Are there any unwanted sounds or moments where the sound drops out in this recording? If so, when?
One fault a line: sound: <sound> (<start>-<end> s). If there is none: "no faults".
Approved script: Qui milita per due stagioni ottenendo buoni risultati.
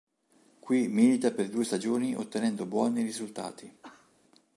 sound: cough (3.8-4.1 s)